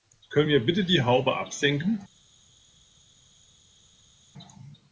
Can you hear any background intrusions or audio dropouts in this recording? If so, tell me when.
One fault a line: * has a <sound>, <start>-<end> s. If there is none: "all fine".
all fine